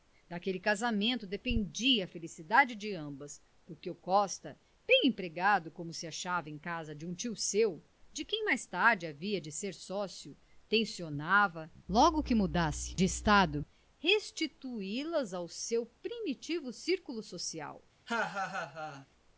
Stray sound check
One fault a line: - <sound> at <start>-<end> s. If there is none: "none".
- laugh at 18.1-19.1 s